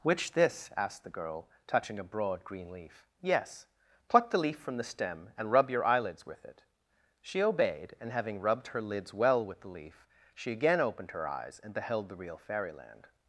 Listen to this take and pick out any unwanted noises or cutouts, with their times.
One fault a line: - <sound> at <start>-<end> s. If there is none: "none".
none